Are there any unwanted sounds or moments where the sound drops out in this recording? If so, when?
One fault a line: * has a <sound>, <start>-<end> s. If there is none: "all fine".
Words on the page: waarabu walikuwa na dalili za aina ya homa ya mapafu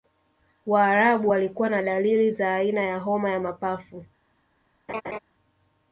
* has a laugh, 4.9-5.2 s